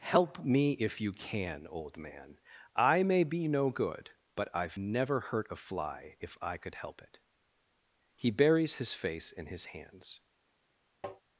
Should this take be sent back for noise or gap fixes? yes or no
yes